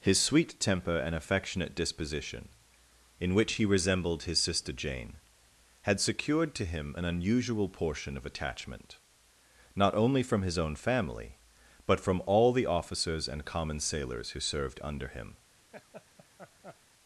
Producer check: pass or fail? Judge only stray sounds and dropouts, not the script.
fail